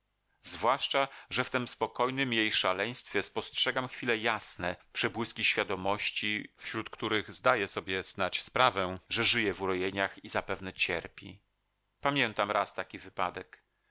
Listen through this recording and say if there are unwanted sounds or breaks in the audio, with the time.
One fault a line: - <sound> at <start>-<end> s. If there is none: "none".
none